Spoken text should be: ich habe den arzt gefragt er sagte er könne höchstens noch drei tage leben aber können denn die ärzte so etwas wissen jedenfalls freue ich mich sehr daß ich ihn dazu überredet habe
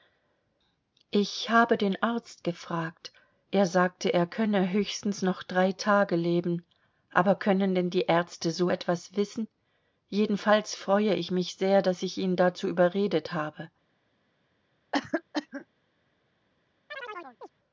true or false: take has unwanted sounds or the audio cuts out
true